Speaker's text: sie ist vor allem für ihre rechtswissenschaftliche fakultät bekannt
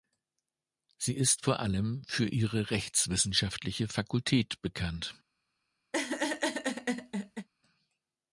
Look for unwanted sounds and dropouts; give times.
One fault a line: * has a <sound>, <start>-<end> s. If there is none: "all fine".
* has a laugh, 5.9-7.5 s